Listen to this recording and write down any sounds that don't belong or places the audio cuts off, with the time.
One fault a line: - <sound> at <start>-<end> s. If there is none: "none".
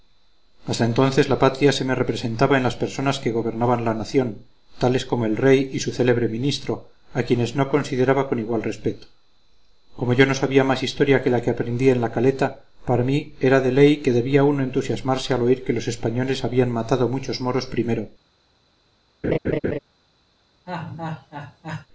- laugh at 19.2-19.8 s
- laugh at 20.7-21.9 s